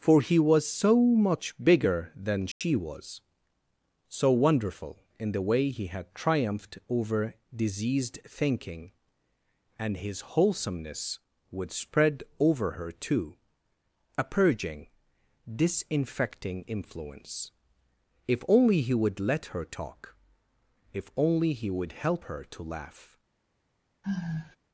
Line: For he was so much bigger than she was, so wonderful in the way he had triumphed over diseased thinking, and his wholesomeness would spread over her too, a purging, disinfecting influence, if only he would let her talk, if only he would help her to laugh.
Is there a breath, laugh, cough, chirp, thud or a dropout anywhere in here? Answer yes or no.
yes